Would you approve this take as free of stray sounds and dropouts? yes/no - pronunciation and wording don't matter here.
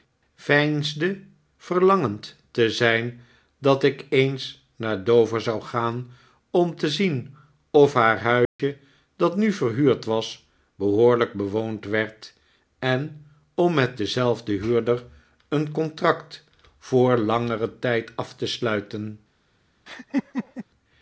no